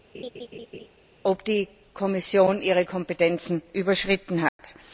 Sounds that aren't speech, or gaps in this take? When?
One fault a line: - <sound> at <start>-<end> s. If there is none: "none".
- laugh at 0.1-0.9 s
- dropout at 4.5-4.6 s